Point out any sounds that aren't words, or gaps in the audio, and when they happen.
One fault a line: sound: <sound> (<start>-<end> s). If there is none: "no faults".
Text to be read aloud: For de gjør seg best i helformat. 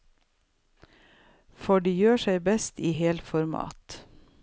no faults